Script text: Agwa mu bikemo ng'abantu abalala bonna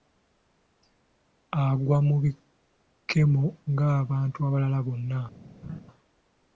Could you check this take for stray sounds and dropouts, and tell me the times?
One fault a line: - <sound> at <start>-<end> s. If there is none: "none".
- laugh at 5.6-5.8 s